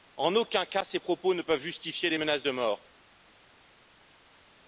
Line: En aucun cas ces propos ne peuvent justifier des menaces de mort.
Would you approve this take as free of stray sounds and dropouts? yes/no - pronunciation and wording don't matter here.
yes